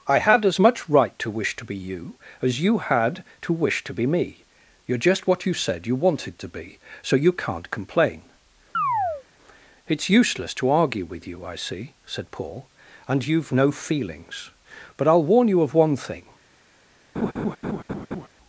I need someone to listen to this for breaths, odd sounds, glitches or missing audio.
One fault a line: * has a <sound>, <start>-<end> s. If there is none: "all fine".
* has a chirp, 8.7-9.2 s
* has a laugh, 17.2-18.3 s